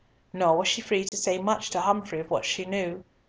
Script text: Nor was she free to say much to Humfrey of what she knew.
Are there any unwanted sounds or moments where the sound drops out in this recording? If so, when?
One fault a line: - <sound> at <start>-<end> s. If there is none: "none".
- dropout at 1.1-1.1 s